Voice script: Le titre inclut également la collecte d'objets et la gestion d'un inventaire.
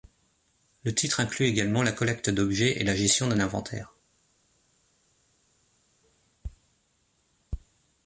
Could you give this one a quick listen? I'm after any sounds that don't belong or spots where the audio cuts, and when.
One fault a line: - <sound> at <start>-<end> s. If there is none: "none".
none